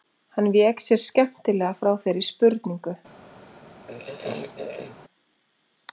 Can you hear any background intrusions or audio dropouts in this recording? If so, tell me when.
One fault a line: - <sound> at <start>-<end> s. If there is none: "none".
- throat clearing at 3.9-5.0 s